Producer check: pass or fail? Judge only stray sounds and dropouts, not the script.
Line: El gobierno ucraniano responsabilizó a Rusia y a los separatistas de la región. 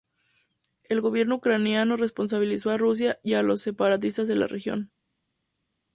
pass